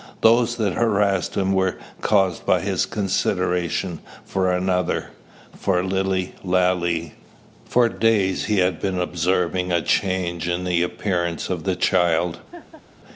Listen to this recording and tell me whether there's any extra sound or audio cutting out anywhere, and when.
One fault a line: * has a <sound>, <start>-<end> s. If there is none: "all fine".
* has a laugh, 12.5-12.8 s